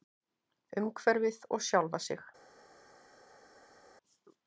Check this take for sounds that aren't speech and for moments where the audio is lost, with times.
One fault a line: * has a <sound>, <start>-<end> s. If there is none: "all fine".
all fine